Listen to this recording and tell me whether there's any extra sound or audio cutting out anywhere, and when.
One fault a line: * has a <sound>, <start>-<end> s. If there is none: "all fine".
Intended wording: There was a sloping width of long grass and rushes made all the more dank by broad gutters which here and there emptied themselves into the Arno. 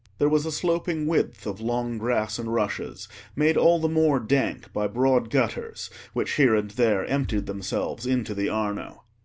all fine